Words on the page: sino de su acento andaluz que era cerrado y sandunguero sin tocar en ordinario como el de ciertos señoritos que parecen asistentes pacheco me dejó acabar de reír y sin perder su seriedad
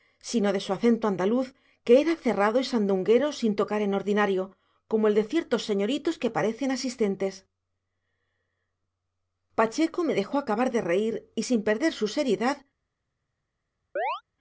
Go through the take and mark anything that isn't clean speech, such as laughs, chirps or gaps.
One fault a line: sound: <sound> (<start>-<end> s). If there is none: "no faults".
sound: chirp (14.0-14.2 s)